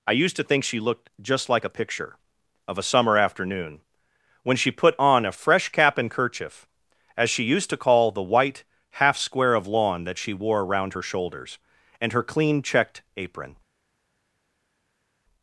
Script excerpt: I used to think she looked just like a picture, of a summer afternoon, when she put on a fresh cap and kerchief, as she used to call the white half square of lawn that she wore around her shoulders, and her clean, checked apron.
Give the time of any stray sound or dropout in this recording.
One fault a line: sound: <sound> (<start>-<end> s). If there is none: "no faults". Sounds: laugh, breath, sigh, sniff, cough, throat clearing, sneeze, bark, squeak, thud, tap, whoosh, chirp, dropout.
no faults